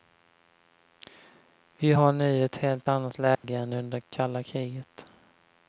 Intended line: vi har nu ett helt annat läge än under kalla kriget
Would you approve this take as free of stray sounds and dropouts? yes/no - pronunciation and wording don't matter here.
no